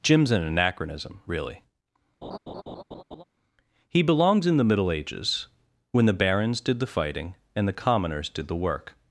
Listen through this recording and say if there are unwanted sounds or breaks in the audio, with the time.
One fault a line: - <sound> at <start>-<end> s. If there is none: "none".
- laugh at 2.2-3.2 s